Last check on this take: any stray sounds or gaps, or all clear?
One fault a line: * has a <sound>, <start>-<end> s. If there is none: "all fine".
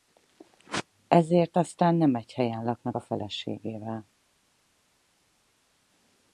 all fine